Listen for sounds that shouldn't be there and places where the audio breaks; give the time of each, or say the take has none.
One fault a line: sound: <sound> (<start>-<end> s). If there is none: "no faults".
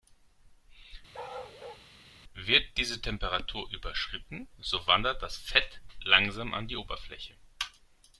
sound: bark (1.1-1.9 s)